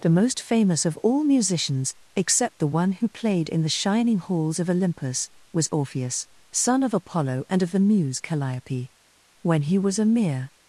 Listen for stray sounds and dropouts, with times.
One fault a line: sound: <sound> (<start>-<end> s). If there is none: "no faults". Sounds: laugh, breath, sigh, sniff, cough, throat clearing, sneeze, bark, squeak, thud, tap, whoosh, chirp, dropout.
no faults